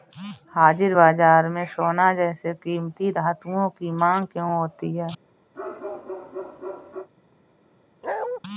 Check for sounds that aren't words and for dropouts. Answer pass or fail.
fail